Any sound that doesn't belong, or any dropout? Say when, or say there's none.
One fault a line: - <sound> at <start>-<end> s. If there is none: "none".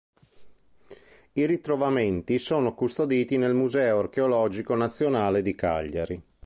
none